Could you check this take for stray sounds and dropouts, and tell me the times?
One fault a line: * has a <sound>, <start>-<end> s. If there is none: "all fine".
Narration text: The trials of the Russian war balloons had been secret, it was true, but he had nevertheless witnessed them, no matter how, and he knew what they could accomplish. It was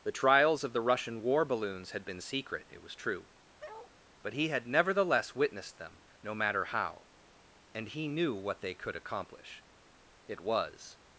* has a bark, 3.6-3.9 s